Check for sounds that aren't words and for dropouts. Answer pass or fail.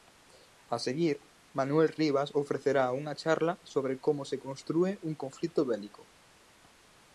pass